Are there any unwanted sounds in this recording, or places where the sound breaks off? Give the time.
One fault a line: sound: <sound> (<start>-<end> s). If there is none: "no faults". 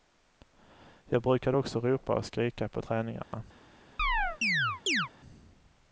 sound: dropout (3.2-3.3 s)
sound: chirp (4.0-5.1 s)